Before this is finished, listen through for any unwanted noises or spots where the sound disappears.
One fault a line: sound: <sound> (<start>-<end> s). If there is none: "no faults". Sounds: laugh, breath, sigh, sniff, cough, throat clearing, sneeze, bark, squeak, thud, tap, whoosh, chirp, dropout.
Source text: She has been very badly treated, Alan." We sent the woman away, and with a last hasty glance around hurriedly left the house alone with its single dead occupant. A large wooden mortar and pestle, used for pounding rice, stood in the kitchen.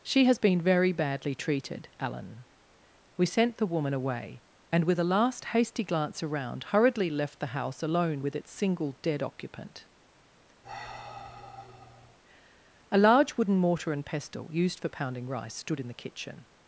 sound: sigh (10.6-12.2 s)